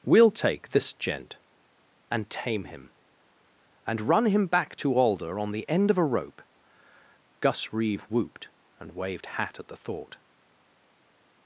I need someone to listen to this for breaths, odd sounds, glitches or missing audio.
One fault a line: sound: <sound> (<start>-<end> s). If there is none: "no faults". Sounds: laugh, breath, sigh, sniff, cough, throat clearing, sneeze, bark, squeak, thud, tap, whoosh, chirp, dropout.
no faults